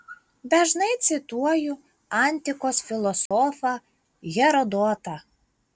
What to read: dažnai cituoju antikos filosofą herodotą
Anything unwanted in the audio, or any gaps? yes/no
yes